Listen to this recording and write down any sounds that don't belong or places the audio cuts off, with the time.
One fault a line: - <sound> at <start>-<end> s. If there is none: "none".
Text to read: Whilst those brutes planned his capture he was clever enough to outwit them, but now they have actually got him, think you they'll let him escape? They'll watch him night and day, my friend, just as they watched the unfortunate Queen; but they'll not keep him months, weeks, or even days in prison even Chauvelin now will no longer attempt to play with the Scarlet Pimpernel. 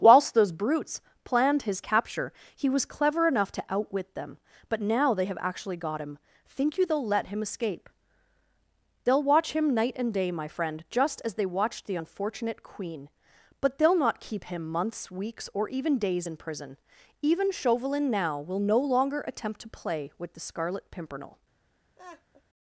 - laugh at 22.0-22.4 s